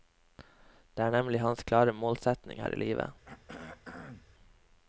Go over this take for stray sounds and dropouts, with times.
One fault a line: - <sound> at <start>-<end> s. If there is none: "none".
- throat clearing at 3.2-4.3 s